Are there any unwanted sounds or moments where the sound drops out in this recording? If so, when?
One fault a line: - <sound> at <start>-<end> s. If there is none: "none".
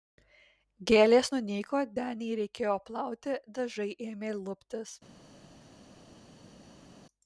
none